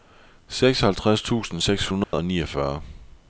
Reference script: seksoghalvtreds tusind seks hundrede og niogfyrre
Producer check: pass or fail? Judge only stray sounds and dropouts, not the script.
fail